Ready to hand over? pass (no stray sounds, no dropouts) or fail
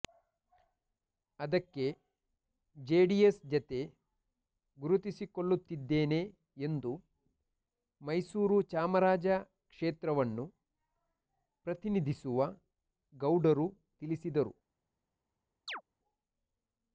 fail